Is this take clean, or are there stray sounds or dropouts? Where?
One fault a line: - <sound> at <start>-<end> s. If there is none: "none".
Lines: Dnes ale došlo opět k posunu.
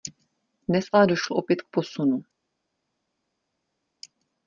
none